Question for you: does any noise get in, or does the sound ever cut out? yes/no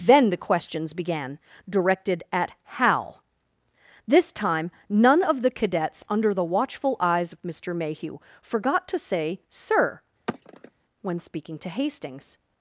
yes